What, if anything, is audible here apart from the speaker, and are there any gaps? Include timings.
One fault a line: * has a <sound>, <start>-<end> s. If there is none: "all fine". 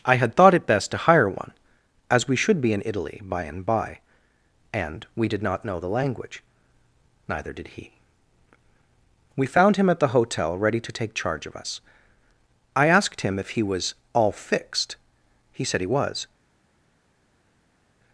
all fine